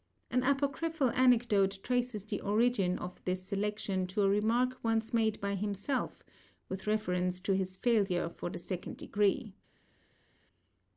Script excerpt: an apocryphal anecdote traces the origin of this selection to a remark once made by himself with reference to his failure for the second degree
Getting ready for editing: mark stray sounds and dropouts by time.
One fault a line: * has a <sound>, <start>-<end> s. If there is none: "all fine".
all fine